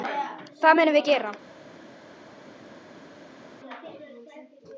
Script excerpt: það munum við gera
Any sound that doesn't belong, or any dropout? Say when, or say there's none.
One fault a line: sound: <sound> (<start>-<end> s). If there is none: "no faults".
no faults